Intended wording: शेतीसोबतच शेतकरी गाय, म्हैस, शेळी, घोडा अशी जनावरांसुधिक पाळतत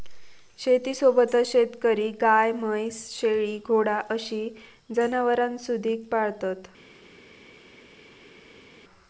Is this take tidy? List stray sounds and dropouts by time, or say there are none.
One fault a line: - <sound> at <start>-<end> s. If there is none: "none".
none